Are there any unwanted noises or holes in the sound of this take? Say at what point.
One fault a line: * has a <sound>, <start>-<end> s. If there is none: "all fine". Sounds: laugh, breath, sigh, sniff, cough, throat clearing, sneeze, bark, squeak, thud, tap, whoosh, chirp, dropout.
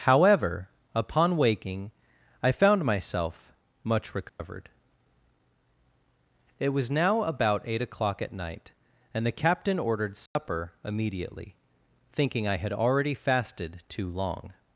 * has a dropout, 4.3-4.4 s
* has a dropout, 10.3-10.4 s